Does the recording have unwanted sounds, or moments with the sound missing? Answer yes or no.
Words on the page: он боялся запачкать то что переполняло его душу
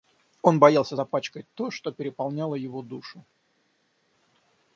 no